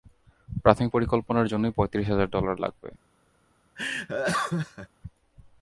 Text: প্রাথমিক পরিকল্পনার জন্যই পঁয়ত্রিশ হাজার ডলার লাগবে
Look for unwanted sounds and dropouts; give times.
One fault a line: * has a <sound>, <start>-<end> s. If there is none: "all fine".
* has a laugh, 3.8-4.9 s